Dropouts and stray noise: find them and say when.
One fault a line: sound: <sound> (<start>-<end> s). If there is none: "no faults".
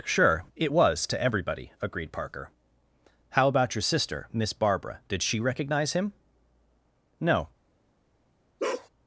sound: bark (8.6-8.9 s)